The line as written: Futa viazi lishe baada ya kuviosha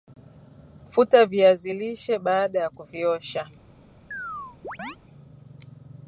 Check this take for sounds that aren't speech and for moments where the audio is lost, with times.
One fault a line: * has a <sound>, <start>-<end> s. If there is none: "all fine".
* has a chirp, 4.1-5.0 s